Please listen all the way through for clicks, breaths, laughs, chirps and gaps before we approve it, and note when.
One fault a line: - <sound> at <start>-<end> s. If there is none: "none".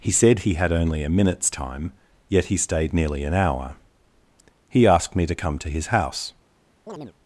- chirp at 6.9-7.1 s